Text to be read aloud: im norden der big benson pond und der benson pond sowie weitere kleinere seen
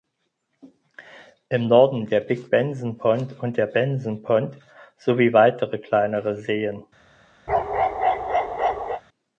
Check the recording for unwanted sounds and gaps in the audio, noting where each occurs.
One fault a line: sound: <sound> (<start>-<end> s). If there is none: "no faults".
sound: bark (7.5-9.0 s)